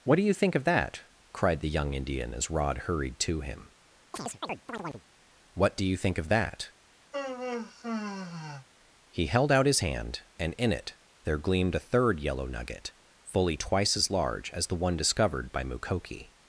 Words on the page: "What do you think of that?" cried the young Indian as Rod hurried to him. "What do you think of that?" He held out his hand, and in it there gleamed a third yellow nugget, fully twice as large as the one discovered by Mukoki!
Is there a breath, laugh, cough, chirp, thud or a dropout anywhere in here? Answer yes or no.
yes